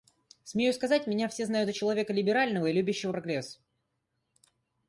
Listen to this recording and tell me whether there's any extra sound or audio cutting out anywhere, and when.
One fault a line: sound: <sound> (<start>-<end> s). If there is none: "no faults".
no faults